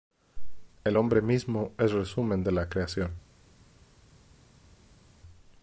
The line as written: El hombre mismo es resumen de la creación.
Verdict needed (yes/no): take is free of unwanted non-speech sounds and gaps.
yes